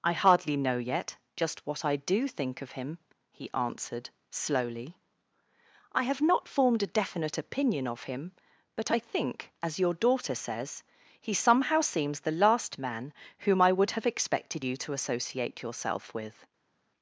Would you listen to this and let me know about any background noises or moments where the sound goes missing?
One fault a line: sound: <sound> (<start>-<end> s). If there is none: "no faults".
no faults